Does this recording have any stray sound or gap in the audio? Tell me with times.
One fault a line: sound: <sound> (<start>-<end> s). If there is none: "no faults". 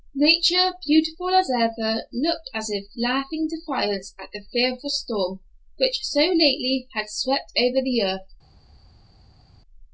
no faults